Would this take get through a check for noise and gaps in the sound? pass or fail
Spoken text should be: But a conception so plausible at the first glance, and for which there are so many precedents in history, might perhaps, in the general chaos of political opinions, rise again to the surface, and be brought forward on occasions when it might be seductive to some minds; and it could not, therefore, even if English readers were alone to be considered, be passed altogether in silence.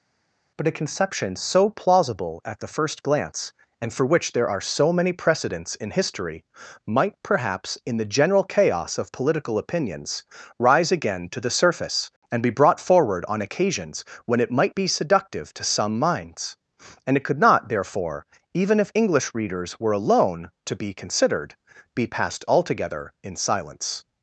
pass